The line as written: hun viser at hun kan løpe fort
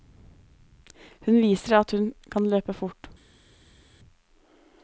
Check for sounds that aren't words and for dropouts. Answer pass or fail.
pass